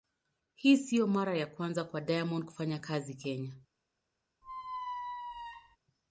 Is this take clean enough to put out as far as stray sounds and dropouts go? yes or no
no